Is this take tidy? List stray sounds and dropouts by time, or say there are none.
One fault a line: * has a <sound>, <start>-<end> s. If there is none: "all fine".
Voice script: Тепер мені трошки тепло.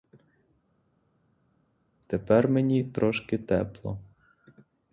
all fine